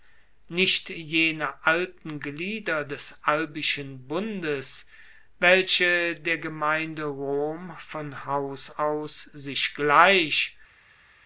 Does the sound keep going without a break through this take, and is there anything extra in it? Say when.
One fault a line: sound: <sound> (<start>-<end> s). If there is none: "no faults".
no faults